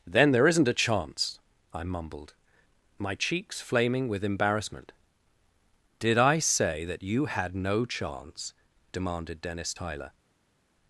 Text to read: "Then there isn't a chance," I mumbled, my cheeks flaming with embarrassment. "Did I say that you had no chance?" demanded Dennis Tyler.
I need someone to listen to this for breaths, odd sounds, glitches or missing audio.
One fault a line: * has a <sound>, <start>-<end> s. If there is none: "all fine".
all fine